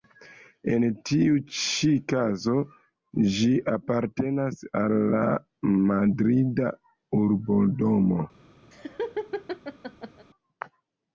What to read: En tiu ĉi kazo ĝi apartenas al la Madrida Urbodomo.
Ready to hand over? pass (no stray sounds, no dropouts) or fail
fail